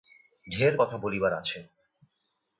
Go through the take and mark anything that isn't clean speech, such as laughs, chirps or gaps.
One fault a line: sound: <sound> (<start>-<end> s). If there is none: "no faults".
no faults